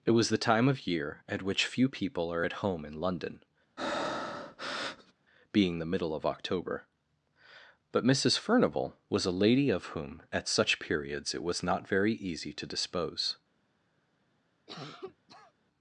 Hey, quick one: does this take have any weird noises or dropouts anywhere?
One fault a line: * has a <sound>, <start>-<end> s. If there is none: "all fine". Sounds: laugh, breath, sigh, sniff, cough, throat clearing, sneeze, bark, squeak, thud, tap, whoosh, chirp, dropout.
* has a breath, 3.8-5.1 s
* has a cough, 14.7-15.5 s